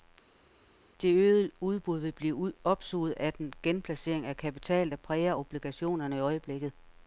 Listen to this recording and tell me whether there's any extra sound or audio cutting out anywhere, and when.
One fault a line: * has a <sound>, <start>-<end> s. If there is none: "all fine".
all fine